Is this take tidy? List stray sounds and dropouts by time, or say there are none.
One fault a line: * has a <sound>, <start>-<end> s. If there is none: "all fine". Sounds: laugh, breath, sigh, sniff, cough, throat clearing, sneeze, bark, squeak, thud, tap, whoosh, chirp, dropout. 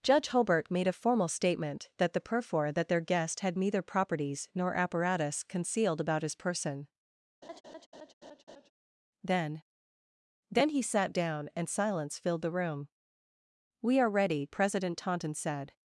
* has a laugh, 7.4-8.7 s